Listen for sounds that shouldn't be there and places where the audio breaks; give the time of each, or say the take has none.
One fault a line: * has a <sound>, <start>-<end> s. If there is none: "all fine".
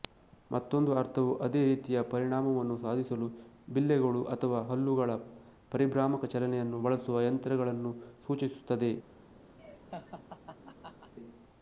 * has a laugh, 9.6-11.1 s